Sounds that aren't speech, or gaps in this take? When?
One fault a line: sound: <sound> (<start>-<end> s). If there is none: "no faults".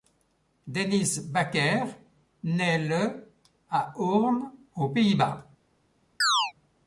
sound: chirp (6.2-6.5 s)